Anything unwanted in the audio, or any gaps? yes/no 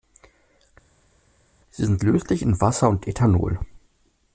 no